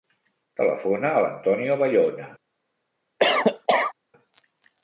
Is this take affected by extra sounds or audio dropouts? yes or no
yes